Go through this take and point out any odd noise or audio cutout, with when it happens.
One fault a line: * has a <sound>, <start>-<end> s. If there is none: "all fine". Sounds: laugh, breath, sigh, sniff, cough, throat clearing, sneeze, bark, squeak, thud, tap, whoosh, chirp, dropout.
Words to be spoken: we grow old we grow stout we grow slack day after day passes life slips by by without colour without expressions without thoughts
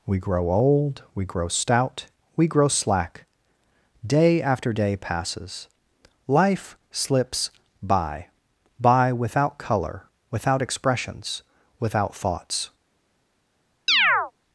* has a chirp, 13.9-14.3 s